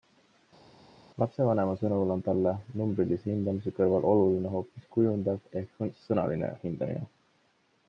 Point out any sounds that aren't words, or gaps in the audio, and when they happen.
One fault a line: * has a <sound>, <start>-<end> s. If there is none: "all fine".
all fine